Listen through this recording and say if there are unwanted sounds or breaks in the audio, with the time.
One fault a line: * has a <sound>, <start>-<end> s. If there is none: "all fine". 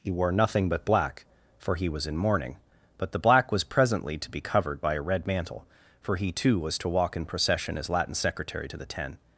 all fine